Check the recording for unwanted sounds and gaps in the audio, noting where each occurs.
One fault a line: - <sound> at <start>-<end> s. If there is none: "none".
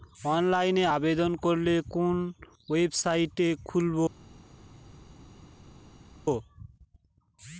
none